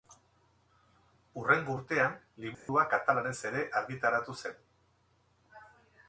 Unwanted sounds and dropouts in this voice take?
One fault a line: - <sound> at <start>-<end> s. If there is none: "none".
- dropout at 2.5-2.7 s